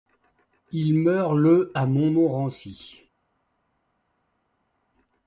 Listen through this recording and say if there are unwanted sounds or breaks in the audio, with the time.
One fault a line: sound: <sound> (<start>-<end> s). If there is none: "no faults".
no faults